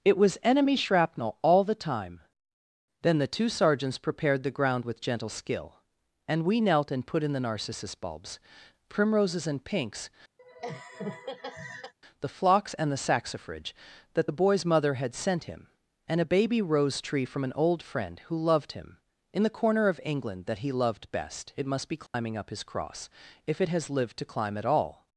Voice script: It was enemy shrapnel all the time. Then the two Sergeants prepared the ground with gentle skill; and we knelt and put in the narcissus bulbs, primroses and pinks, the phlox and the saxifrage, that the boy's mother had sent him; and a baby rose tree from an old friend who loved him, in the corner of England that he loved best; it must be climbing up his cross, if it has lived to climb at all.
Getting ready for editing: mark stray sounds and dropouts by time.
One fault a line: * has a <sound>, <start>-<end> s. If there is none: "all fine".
* has a laugh, 10.4-11.9 s
* has a dropout, 22.1-22.1 s